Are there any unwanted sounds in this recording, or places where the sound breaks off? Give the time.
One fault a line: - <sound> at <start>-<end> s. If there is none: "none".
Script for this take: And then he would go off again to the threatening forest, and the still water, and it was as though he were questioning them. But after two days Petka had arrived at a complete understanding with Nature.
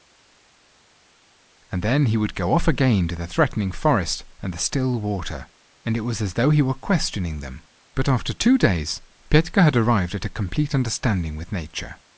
none